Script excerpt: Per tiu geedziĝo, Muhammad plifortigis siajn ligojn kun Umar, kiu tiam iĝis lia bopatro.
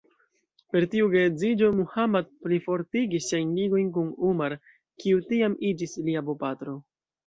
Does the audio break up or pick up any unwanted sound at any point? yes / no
no